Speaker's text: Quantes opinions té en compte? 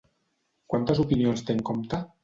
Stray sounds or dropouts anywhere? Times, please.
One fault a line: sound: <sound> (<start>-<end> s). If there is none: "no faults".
no faults